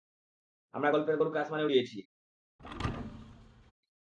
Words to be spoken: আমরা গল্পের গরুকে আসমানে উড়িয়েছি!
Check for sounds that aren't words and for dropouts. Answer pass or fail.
fail